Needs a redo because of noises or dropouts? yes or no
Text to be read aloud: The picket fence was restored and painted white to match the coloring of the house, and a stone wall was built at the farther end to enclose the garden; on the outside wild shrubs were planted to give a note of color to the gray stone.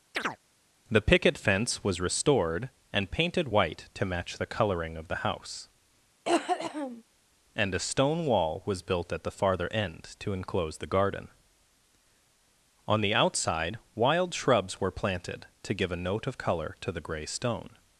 yes